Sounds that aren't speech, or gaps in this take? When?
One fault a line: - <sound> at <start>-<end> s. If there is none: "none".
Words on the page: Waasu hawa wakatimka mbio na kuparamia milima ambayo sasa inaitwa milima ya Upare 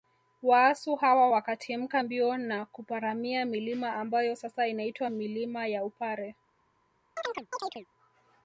- chirp at 7.2-7.9 s